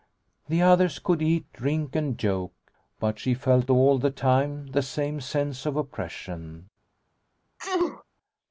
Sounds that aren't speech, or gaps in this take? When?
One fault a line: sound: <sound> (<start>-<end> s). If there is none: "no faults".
sound: sneeze (7.6-8.0 s)